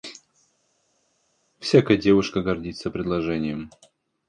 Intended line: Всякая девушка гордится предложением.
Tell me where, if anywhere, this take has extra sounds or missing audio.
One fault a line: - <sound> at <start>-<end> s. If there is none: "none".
none